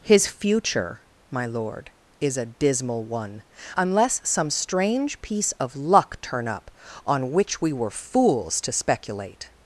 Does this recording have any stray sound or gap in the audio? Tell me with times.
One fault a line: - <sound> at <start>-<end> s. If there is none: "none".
none